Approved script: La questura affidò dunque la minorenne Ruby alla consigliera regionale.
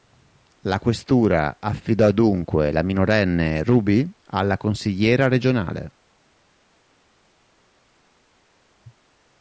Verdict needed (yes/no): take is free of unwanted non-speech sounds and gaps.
yes